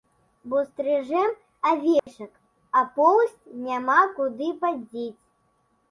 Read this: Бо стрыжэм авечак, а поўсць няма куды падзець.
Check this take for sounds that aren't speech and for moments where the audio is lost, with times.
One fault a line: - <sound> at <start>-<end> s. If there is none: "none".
- dropout at 2.0-2.1 s